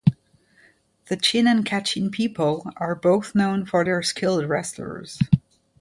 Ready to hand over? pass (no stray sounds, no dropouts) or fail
pass